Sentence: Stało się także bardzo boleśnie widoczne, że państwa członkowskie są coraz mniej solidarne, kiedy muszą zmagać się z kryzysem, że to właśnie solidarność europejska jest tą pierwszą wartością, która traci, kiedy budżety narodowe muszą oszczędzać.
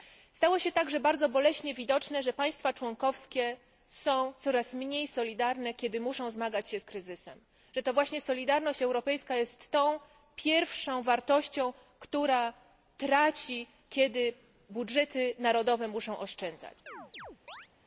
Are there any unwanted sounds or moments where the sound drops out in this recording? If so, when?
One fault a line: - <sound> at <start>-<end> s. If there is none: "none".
- chirp at 16.9-17.7 s